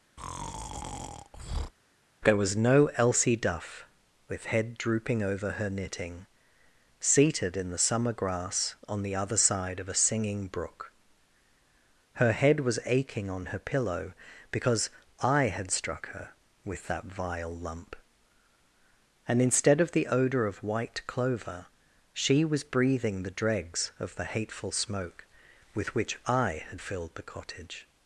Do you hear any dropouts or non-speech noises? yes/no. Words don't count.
yes